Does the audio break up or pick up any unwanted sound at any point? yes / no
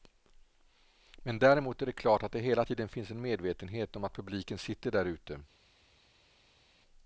no